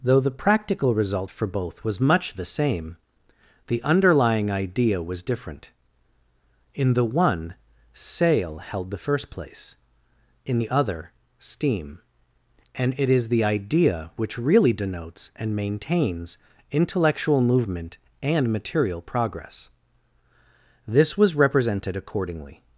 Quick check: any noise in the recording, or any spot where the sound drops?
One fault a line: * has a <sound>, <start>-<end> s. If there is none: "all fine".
all fine